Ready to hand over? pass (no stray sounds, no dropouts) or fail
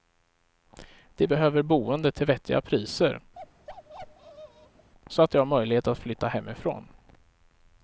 fail